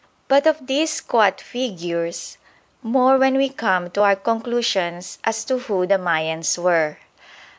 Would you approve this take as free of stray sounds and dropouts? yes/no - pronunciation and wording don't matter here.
yes